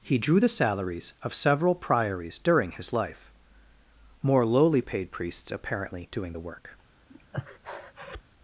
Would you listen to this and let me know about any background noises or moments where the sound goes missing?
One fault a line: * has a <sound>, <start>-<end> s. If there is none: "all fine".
* has a breath, 7.1-8.2 s